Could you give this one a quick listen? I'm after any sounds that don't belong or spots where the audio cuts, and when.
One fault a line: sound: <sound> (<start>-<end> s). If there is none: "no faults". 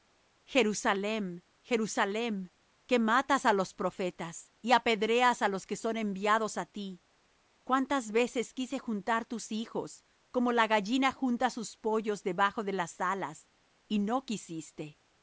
no faults